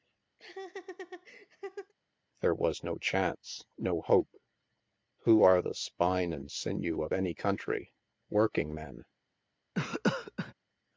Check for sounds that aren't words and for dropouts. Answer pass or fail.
fail